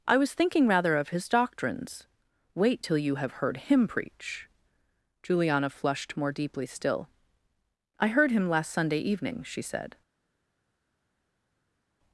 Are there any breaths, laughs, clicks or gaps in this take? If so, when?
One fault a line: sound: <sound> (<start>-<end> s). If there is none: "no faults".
no faults